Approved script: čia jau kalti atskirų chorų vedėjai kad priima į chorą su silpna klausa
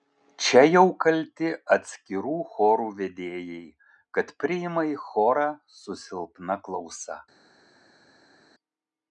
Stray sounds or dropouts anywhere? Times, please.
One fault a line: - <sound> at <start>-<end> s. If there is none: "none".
none